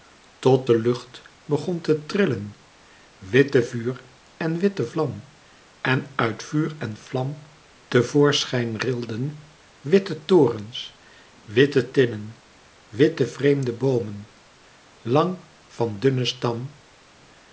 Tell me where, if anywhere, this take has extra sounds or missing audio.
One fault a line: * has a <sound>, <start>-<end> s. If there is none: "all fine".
all fine